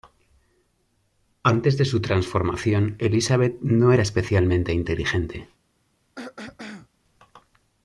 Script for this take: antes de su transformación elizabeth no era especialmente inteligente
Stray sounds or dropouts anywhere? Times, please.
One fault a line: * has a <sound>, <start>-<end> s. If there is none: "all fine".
* has a throat clearing, 6.2-6.9 s